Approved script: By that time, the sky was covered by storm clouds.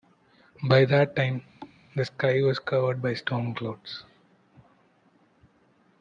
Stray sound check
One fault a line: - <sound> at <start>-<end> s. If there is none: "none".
- thud at 1.6-1.8 s